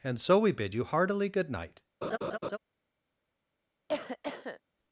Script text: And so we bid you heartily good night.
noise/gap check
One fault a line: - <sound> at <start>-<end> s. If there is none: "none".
- laugh at 2.0-2.6 s
- cough at 3.9-4.6 s